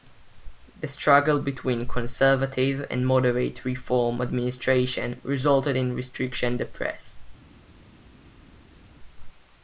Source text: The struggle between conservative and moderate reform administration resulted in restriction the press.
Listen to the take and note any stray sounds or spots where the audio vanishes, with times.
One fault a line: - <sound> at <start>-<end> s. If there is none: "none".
none